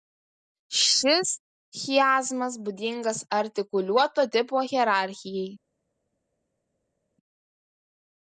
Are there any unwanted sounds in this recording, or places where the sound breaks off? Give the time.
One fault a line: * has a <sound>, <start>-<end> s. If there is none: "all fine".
all fine